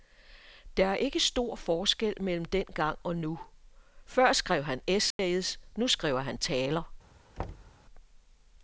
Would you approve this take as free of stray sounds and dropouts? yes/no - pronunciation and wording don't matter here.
no